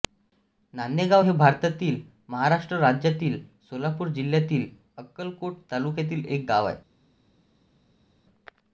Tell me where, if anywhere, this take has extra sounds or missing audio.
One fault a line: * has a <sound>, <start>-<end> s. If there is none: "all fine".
all fine